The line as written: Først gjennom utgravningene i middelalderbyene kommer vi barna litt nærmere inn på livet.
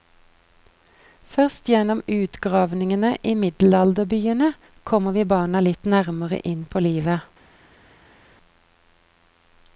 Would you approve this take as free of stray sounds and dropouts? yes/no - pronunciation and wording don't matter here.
yes